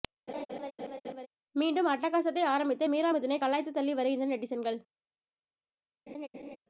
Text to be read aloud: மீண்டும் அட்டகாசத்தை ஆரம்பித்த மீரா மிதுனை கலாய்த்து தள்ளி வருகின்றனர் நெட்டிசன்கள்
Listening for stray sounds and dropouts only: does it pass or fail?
fail